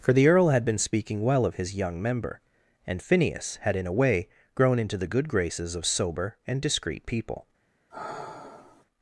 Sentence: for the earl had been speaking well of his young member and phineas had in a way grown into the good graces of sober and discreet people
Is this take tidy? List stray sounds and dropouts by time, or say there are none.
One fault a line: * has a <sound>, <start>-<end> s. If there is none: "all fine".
* has a sigh, 7.9-8.9 s